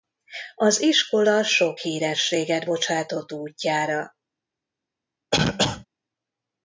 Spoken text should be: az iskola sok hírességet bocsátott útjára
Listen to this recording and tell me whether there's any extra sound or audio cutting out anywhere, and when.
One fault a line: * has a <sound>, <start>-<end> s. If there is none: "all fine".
* has a cough, 5.3-5.9 s